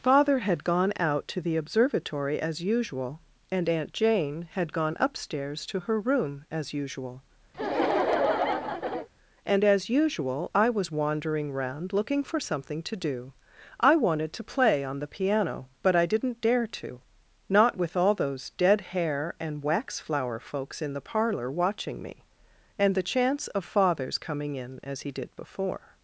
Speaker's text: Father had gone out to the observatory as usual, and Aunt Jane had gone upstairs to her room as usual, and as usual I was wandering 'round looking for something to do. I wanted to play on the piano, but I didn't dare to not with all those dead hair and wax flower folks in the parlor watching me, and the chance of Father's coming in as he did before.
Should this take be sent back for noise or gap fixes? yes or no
yes